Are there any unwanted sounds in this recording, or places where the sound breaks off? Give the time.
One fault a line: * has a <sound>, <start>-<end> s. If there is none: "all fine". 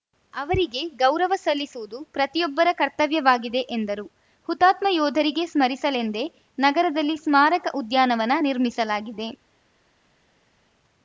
all fine